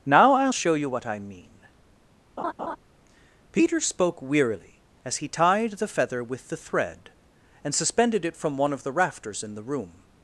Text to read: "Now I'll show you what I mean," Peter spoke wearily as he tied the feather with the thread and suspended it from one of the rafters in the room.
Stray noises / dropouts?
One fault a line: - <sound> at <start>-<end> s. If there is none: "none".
- laugh at 2.4-2.8 s